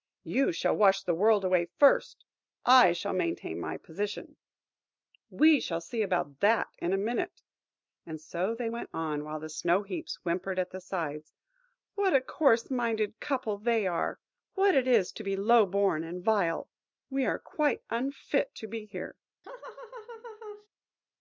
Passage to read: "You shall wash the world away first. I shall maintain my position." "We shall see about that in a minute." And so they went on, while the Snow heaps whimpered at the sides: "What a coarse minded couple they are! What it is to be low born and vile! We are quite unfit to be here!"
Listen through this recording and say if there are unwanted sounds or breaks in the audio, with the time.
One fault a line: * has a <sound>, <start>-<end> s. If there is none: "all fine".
* has a laugh, 19.4-20.7 s